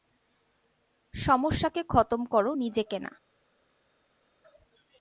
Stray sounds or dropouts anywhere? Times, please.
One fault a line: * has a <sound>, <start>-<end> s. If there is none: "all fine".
all fine